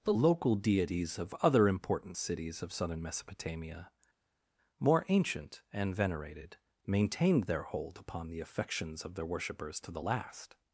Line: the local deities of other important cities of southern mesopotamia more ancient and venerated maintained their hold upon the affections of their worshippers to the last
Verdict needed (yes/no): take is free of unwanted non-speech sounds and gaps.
yes